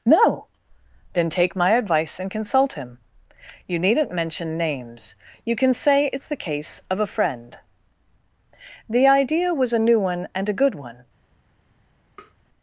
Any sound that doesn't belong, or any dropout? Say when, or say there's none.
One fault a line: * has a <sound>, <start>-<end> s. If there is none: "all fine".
* has a tap, 12.2-12.4 s